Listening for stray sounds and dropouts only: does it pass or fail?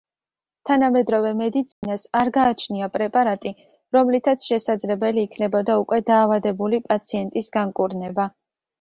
fail